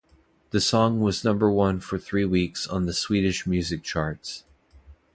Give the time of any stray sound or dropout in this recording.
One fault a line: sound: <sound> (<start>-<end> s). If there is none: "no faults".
no faults